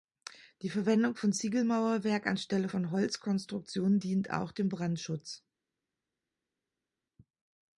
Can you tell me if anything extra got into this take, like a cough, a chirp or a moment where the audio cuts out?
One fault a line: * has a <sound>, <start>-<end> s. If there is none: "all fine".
all fine